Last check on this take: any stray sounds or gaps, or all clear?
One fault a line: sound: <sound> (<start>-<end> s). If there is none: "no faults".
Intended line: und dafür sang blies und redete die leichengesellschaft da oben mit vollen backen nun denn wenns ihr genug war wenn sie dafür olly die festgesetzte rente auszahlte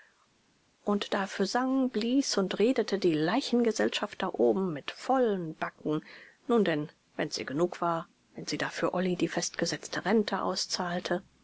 no faults